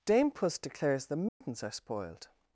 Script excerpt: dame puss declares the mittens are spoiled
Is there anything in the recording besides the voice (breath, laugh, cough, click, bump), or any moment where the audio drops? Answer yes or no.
yes